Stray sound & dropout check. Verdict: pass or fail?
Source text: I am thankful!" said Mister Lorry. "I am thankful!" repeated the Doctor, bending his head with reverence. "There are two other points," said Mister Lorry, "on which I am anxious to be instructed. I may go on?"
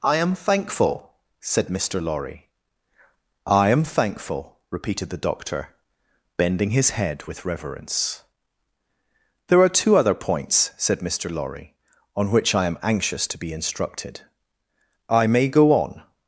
pass